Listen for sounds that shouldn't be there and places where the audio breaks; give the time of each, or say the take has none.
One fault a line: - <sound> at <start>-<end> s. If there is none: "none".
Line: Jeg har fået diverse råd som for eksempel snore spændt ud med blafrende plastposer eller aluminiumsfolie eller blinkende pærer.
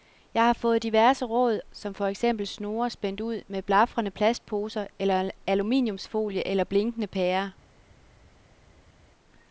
none